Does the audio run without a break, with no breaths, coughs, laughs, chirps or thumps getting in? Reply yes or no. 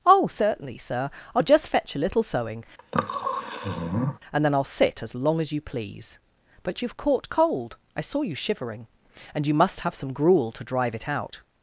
no